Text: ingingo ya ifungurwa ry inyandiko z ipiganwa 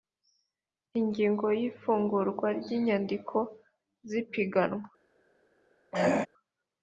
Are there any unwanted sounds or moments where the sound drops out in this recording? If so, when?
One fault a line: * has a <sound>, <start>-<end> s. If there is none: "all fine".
* has a throat clearing, 5.9-6.3 s